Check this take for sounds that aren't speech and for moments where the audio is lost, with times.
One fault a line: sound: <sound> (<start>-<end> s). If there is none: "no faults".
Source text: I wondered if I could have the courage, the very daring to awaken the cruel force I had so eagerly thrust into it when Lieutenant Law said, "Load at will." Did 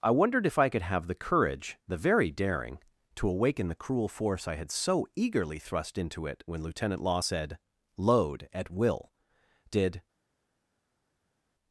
no faults